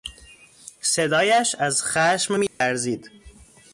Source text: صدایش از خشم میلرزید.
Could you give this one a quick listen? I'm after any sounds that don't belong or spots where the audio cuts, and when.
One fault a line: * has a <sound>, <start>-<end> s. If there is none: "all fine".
* has a dropout, 2.5-2.6 s